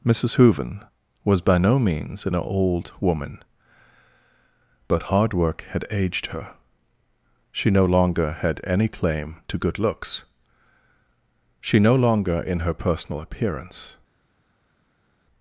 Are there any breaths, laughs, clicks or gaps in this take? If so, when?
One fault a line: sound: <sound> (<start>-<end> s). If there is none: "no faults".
no faults